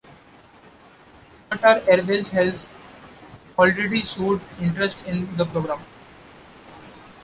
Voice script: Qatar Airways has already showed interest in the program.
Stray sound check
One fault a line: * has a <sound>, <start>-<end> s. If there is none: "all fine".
all fine